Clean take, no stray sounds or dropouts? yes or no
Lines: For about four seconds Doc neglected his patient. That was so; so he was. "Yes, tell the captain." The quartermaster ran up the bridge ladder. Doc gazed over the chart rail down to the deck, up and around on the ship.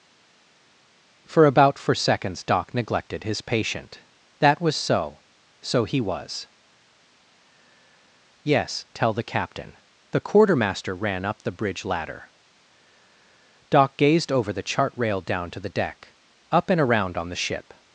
yes